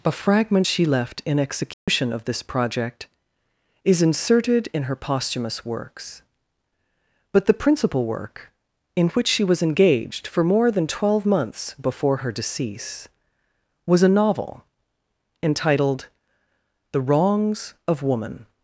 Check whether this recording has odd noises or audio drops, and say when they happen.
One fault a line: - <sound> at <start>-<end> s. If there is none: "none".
- dropout at 1.7-1.9 s